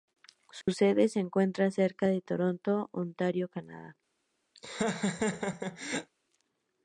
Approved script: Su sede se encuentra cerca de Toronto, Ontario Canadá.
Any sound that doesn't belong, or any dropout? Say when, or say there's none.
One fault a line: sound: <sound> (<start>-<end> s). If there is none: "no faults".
sound: dropout (0.6-0.7 s)
sound: laugh (4.6-6.1 s)